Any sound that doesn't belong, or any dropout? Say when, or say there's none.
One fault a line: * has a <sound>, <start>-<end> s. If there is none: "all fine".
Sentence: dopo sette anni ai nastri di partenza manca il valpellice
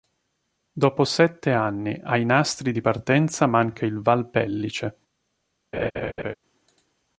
* has a laugh, 5.7-6.3 s